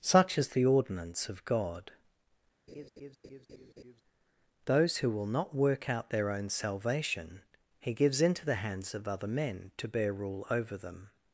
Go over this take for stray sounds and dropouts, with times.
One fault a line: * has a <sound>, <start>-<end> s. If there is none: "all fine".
* has a laugh, 2.7-4.0 s